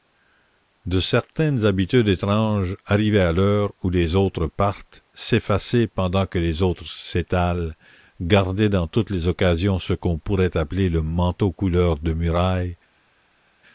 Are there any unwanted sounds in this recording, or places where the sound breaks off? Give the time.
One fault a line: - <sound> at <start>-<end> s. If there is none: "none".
none